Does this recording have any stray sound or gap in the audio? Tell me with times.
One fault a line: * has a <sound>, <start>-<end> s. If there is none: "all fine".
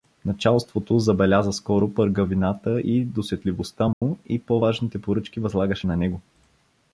* has a dropout, 3.9-4.0 s